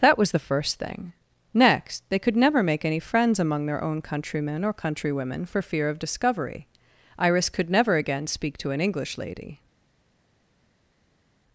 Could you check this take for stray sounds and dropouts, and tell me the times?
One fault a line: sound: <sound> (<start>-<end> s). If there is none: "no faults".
no faults